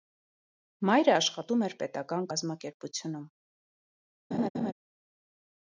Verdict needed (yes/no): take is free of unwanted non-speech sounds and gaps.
no